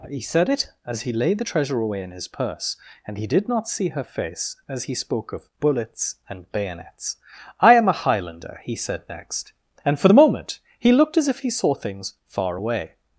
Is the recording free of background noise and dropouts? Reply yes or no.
yes